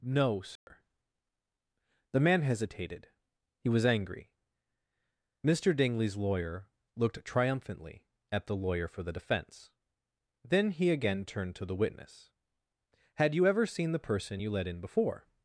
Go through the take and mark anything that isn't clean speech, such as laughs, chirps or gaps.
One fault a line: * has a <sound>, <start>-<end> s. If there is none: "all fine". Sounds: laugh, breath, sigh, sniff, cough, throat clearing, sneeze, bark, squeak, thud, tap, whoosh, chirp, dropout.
* has a dropout, 0.6-0.7 s